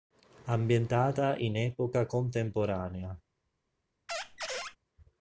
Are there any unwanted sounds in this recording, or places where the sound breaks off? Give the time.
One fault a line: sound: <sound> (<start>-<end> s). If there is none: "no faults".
sound: squeak (4.1-4.8 s)